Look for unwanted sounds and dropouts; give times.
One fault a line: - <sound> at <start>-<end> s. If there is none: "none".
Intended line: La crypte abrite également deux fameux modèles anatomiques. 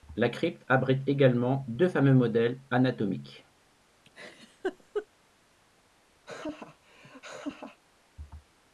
- laugh at 4.0-5.1 s
- laugh at 6.2-7.8 s